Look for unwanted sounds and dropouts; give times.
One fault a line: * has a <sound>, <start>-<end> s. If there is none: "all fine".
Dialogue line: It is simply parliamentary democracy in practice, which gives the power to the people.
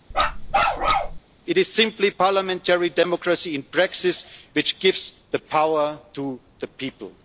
* has a bark, 0.1-1.2 s